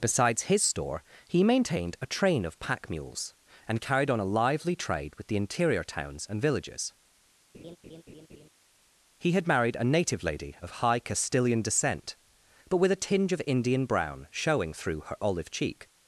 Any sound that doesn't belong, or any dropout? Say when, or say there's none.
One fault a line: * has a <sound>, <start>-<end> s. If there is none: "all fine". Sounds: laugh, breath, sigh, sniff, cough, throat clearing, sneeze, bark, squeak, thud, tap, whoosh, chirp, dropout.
* has a laugh, 7.5-8.5 s